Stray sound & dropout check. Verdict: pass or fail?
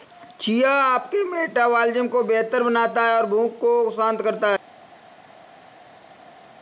pass